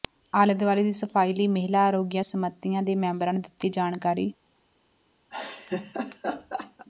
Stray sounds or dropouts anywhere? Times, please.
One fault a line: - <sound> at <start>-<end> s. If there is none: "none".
- laugh at 5.3-6.9 s